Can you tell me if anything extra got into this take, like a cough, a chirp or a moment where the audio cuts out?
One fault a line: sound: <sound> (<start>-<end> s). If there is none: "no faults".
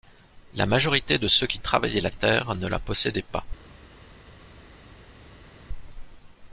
no faults